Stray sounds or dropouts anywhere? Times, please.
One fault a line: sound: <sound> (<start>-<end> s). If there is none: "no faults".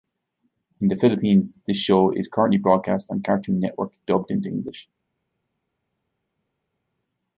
no faults